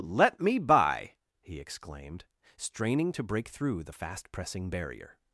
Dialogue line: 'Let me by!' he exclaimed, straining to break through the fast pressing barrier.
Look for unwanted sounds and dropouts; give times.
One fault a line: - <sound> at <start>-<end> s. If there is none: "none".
none